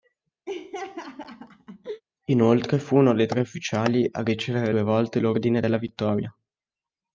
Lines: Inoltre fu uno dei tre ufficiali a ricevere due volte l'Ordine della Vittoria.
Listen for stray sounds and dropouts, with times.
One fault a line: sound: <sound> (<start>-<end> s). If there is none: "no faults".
sound: laugh (0.5-2.0 s)